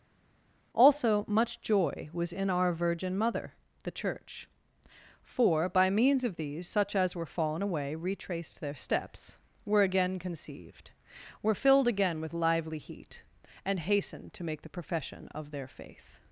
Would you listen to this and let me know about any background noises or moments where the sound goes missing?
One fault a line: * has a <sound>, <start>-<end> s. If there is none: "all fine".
all fine